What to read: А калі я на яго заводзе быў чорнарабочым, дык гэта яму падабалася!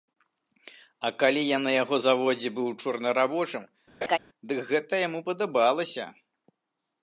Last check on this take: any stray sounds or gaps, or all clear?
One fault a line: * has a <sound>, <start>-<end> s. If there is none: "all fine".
* has a laugh, 4.0-4.2 s